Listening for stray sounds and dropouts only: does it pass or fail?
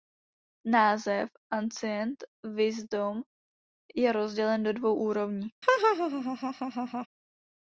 fail